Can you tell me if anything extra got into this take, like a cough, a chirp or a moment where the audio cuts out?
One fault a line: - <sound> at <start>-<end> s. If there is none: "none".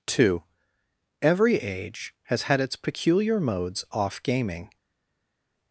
none